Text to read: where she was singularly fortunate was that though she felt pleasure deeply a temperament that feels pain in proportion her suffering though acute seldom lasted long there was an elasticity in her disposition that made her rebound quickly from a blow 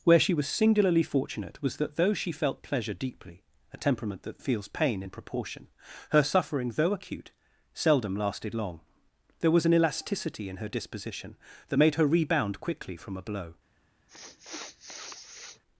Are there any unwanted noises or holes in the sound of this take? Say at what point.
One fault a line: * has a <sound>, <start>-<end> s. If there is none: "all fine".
* has a sniff, 14.1-15.6 s